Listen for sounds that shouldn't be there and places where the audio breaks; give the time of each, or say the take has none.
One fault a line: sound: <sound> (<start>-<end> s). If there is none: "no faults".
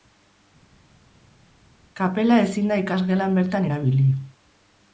no faults